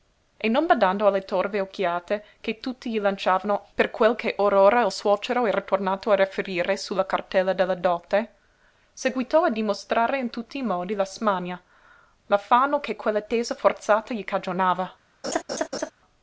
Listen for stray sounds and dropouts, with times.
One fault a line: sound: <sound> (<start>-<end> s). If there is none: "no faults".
sound: laugh (15.2-15.9 s)